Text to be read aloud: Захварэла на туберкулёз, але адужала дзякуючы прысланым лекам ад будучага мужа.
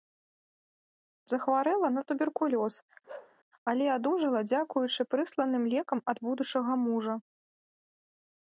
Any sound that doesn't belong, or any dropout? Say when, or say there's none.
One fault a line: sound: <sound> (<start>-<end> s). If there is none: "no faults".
sound: bark (3.1-3.4 s)